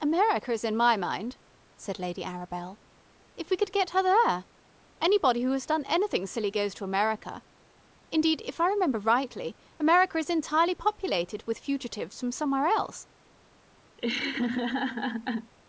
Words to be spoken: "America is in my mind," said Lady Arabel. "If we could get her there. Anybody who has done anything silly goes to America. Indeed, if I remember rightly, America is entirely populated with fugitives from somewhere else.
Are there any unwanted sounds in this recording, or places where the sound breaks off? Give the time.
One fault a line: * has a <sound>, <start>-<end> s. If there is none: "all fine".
* has a laugh, 14.0-15.5 s